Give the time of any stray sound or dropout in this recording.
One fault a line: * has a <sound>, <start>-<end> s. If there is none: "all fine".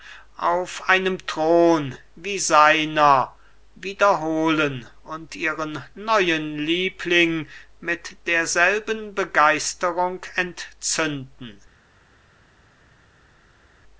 all fine